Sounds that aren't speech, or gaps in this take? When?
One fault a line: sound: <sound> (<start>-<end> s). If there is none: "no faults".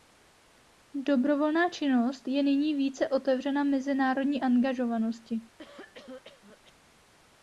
sound: cough (5.6-6.7 s)